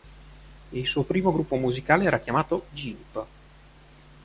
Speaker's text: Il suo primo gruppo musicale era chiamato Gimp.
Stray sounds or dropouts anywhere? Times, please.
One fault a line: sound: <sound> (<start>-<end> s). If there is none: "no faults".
no faults